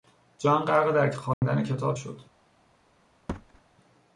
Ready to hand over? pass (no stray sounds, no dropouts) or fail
fail